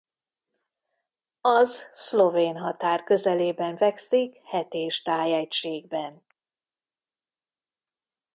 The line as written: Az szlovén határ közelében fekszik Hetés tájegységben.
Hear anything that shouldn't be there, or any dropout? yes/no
no